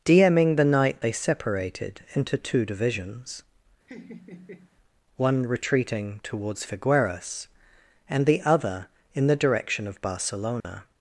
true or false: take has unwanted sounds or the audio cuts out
true